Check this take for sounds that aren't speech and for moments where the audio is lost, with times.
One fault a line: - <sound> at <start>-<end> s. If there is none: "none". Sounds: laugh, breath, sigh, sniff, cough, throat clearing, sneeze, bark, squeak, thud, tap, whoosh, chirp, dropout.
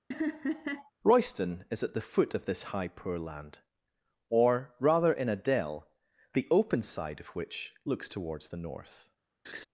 - laugh at 0.1-0.9 s
- laugh at 9.4-9.6 s